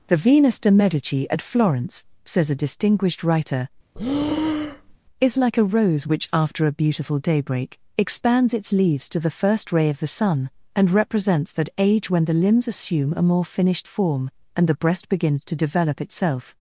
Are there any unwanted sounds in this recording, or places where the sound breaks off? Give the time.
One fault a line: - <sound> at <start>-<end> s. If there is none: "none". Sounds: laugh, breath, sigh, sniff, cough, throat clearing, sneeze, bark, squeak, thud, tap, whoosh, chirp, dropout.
- breath at 3.9-5.0 s